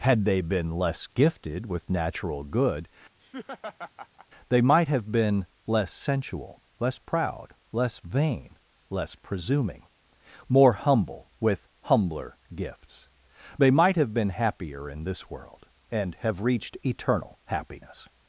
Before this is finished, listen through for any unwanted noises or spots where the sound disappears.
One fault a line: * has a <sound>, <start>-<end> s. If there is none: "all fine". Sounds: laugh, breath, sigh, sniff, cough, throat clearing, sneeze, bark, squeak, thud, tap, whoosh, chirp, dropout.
* has a laugh, 3.2-4.3 s